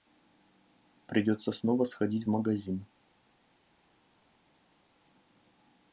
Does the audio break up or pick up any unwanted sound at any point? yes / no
no